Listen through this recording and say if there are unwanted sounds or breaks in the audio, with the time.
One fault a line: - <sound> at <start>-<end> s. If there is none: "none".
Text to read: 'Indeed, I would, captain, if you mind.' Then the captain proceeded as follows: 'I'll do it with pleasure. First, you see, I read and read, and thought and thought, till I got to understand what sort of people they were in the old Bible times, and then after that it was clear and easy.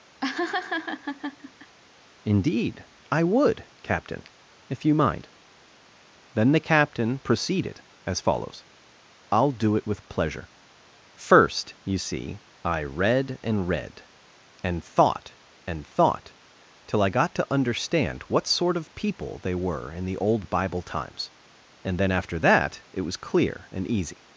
- laugh at 0.2-1.8 s